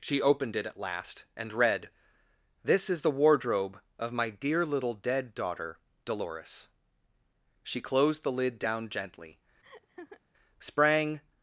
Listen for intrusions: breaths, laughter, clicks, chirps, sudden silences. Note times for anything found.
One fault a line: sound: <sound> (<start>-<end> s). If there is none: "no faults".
sound: laugh (9.6-10.2 s)